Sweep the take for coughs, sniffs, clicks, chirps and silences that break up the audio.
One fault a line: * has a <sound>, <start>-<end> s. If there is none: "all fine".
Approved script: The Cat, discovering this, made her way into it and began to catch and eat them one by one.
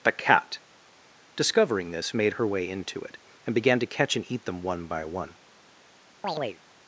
* has a chirp, 6.2-6.6 s